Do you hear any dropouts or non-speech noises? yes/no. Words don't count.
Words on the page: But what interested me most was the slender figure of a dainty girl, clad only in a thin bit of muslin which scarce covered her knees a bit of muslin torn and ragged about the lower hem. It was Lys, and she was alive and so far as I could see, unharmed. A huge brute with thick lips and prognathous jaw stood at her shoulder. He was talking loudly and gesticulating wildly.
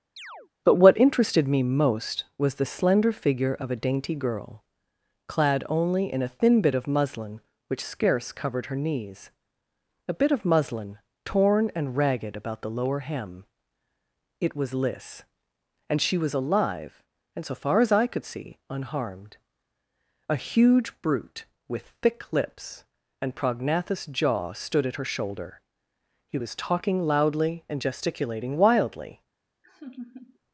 yes